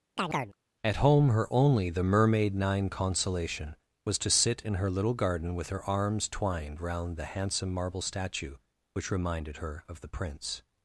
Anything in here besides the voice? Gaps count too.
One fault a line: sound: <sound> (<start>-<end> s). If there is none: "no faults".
sound: chirp (0.2-0.6 s)